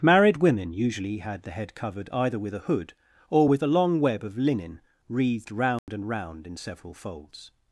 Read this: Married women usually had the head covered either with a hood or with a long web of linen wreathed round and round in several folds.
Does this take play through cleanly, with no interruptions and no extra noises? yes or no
no